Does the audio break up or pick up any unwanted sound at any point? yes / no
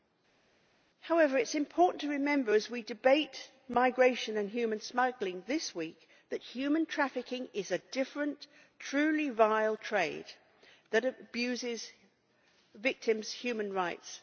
no